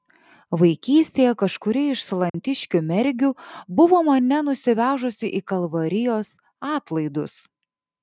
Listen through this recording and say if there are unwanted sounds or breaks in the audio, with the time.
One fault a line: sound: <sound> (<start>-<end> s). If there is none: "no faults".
sound: dropout (2.3-2.3 s)